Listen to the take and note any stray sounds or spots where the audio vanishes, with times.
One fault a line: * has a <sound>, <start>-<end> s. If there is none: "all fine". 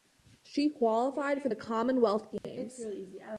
* has a dropout, 2.4-2.4 s